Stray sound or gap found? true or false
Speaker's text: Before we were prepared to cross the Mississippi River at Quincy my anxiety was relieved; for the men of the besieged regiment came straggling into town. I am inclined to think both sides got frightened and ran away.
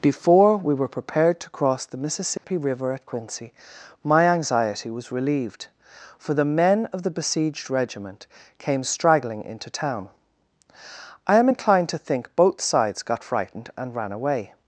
true